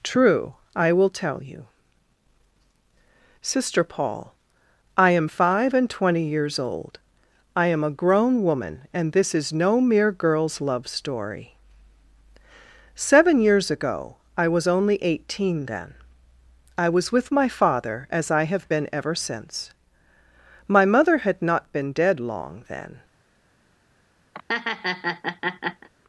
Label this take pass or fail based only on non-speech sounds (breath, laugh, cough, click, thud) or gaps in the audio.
fail